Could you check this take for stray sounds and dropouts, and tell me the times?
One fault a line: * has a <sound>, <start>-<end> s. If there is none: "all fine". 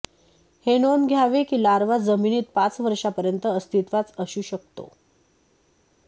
all fine